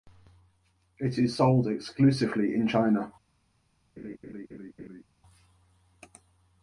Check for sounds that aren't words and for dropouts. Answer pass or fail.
fail